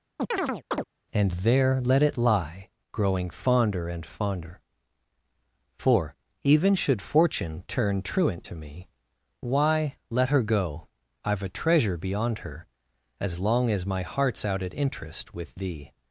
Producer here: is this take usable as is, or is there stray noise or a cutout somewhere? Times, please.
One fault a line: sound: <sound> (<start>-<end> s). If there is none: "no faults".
sound: chirp (0.2-0.8 s)